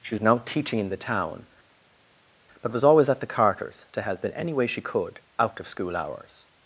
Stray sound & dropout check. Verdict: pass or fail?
pass